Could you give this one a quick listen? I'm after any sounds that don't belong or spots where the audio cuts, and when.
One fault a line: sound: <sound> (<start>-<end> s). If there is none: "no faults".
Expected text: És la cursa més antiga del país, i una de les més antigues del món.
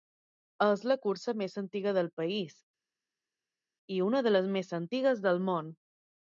no faults